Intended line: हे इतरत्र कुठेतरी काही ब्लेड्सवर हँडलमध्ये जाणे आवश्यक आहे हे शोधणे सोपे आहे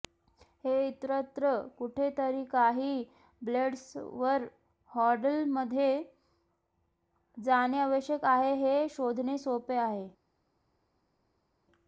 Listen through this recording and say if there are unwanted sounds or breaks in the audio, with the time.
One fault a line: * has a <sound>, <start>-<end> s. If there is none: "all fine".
all fine